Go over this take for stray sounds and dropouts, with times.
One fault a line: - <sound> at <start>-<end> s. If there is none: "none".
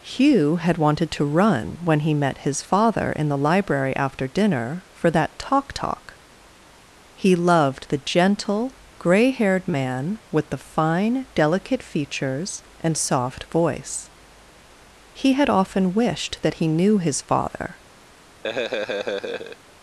- laugh at 18.4-19.6 s